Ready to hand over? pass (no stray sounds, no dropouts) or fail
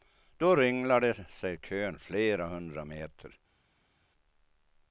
pass